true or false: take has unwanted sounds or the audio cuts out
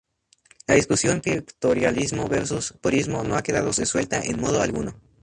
false